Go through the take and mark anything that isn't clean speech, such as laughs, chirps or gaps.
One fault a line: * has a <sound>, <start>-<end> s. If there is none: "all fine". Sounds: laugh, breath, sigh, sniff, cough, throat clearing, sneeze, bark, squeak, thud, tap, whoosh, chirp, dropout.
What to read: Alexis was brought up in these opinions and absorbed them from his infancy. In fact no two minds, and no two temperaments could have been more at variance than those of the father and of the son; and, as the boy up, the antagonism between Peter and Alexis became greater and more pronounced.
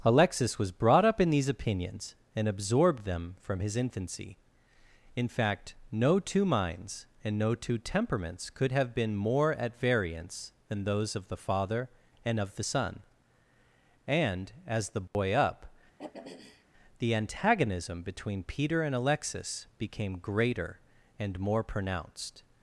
* has a dropout, 15.1-15.1 s
* has a throat clearing, 16.0-16.6 s